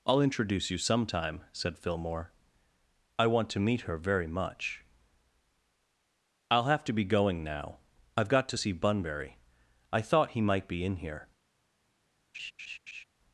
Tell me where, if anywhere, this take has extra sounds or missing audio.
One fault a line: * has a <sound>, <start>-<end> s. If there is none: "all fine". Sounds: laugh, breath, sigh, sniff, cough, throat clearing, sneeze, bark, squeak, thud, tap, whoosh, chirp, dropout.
* has a laugh, 12.3-13.0 s